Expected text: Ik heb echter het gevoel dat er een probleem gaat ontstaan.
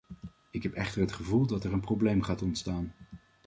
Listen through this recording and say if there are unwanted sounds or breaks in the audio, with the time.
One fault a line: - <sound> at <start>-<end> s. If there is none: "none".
none